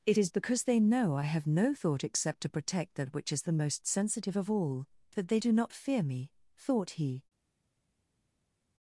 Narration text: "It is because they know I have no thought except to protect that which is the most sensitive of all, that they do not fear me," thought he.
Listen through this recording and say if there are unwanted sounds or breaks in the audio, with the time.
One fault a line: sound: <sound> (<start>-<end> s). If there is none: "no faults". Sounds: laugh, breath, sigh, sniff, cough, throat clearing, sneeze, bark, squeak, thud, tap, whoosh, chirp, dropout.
no faults